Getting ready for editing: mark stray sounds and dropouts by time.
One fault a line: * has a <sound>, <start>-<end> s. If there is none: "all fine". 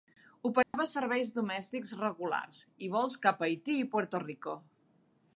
* has a dropout, 0.6-0.7 s